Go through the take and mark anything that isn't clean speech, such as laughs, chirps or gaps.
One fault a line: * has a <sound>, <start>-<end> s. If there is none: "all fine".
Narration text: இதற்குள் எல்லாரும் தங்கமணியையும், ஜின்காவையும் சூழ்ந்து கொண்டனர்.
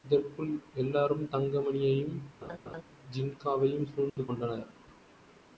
* has a laugh, 2.4-2.8 s
* has a dropout, 4.1-4.2 s